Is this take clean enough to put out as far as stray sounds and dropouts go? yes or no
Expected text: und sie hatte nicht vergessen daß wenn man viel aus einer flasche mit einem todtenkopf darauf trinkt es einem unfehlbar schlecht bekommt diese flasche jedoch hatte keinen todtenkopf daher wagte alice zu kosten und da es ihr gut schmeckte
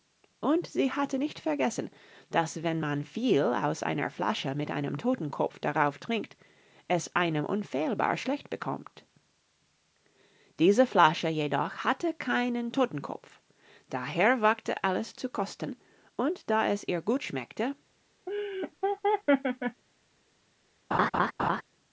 no